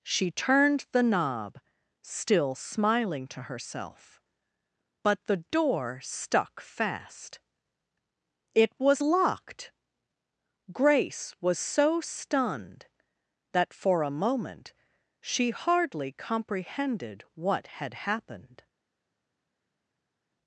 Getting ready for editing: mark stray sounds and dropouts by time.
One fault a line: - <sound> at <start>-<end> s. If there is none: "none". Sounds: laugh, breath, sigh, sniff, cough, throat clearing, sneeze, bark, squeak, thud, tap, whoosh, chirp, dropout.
none